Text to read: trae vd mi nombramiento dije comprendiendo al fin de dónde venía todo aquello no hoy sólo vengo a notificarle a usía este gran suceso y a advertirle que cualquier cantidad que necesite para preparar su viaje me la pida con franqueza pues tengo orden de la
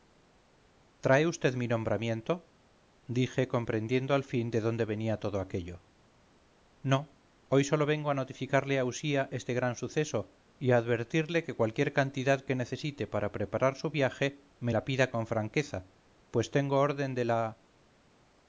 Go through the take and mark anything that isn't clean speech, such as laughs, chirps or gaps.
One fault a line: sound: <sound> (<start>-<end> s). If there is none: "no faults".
no faults